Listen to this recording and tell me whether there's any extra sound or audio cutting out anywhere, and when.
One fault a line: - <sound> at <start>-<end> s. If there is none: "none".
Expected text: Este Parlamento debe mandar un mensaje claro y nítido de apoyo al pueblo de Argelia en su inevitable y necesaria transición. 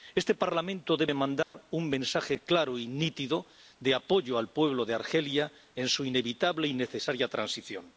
- dropout at 1.4-1.5 s